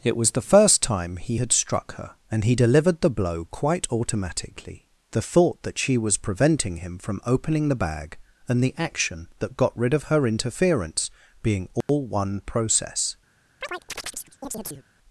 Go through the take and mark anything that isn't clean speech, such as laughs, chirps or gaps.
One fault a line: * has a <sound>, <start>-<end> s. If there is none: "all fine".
* has a dropout, 11.8-11.9 s
* has a chirp, 13.6-14.9 s